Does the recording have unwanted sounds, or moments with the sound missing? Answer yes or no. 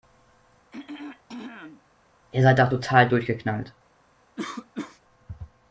yes